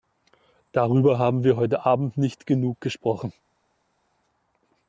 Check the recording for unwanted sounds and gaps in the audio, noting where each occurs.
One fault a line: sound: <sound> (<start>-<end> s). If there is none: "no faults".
no faults